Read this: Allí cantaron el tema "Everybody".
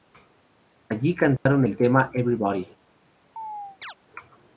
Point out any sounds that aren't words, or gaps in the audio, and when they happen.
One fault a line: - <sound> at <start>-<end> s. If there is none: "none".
- dropout at 1.4-1.5 s
- chirp at 3.4-3.9 s